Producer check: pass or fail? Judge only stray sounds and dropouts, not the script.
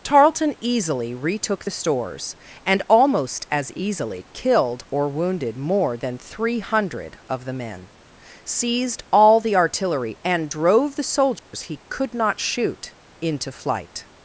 fail